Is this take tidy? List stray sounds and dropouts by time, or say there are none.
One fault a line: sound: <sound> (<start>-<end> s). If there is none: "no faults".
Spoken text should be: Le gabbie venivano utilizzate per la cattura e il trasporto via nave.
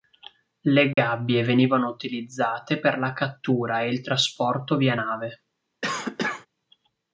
sound: dropout (0.9-1.0 s)
sound: cough (5.8-6.5 s)